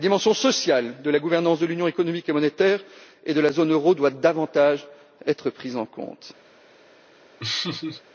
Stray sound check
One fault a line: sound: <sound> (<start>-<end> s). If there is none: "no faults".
sound: laugh (7.4-8.0 s)